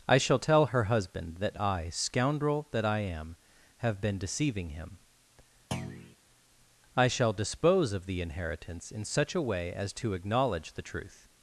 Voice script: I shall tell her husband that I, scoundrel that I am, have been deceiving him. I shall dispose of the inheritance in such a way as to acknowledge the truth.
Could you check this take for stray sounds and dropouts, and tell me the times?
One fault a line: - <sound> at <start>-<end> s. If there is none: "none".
- thud at 5.7-6.2 s